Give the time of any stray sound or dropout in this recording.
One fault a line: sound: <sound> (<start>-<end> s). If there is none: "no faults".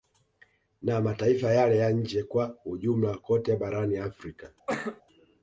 sound: cough (4.7-5.0 s)